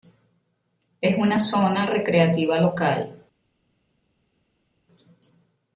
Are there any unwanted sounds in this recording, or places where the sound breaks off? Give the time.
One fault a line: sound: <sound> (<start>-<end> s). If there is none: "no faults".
no faults